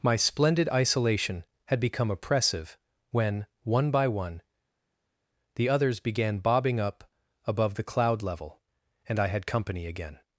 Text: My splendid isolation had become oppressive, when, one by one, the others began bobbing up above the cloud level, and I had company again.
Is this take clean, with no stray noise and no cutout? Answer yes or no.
yes